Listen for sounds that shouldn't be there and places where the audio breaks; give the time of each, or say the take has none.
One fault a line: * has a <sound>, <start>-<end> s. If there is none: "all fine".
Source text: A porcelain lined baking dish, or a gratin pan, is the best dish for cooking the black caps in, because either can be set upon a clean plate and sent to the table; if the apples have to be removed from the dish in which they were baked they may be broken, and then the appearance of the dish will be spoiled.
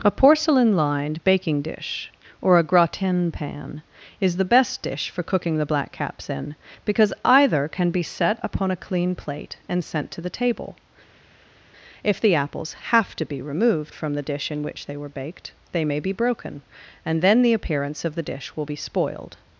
all fine